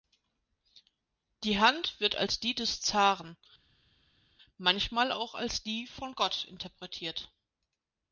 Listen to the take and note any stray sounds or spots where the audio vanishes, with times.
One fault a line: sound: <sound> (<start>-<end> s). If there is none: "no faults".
no faults